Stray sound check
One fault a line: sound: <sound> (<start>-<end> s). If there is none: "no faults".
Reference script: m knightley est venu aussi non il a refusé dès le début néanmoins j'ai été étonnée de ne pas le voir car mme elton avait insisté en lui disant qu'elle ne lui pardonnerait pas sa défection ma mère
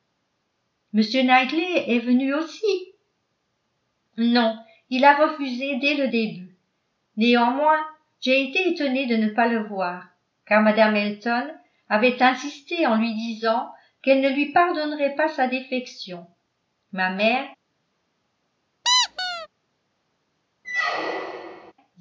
sound: squeak (18.8-19.5 s)
sound: squeak (20.6-21.7 s)